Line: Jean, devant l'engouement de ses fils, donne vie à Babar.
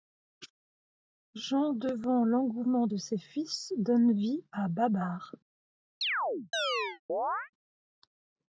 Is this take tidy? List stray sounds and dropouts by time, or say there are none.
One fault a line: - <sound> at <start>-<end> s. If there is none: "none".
- chirp at 6.0-7.5 s